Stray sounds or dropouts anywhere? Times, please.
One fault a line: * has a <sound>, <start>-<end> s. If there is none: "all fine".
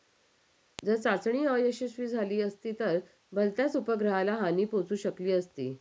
all fine